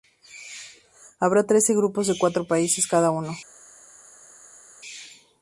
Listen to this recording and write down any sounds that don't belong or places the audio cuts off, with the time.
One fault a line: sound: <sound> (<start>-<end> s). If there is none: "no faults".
no faults